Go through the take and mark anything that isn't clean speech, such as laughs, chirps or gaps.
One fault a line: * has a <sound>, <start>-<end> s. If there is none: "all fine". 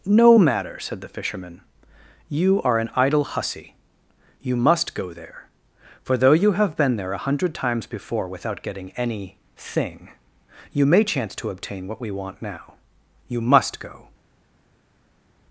all fine